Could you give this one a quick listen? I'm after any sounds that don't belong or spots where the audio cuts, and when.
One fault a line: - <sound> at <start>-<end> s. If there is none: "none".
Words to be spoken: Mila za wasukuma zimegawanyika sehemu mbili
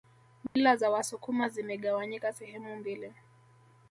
- dropout at 0.5-0.6 s